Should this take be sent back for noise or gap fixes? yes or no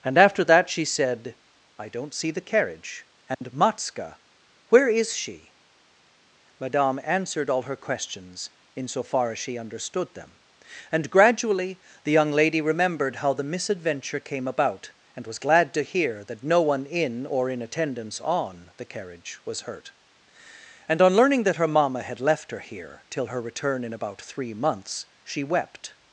yes